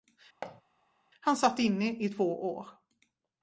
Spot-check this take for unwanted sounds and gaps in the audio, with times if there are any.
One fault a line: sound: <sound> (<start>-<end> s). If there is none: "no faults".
sound: thud (0.4-0.6 s)